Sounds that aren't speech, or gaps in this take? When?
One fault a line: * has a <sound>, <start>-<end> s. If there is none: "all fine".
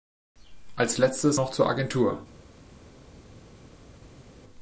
all fine